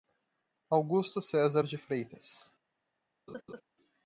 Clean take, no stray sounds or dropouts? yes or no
no